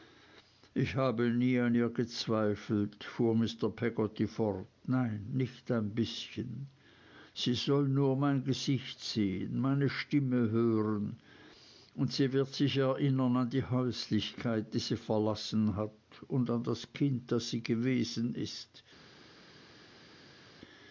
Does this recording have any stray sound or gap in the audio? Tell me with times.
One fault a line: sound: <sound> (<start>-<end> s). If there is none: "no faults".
no faults